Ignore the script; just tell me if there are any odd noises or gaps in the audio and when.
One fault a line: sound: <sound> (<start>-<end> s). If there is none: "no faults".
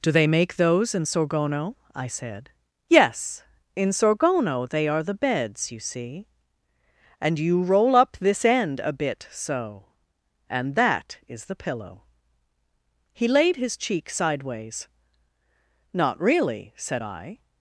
no faults